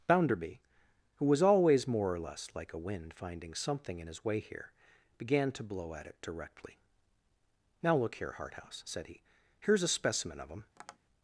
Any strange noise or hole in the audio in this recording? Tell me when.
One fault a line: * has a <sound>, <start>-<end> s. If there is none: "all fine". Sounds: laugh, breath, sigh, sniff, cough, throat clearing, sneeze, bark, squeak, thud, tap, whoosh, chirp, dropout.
* has a tap, 10.8-11.0 s